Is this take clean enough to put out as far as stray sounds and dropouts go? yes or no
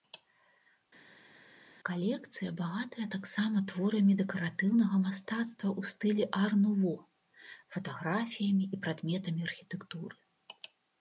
yes